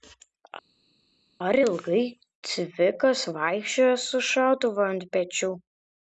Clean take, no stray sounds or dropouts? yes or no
yes